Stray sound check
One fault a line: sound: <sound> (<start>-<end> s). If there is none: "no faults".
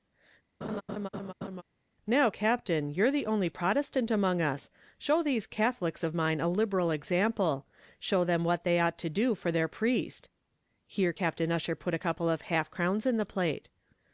sound: laugh (0.6-1.6 s)